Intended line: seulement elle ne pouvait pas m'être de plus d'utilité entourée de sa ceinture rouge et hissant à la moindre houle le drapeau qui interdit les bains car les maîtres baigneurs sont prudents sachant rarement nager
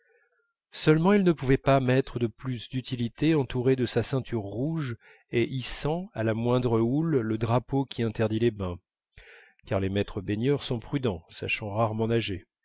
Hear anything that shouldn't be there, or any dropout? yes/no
no